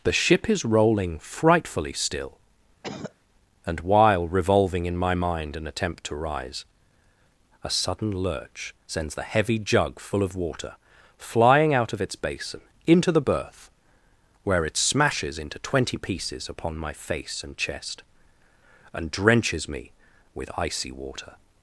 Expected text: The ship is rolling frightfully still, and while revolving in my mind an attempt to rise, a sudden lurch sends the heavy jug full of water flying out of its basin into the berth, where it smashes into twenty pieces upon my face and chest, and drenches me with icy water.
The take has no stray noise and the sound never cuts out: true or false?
false